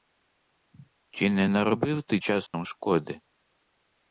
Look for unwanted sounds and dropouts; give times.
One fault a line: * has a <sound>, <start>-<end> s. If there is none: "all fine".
* has a dropout, 2.5-2.5 s